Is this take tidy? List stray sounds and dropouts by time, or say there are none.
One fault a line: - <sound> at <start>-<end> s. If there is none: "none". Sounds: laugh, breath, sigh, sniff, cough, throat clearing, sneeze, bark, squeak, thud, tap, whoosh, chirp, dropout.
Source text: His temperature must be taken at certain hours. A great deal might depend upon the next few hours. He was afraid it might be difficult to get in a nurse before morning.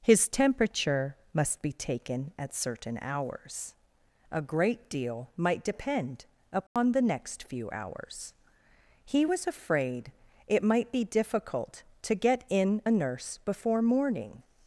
- dropout at 6.7-6.8 s